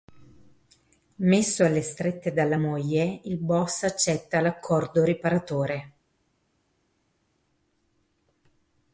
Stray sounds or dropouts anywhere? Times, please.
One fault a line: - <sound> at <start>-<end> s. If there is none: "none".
none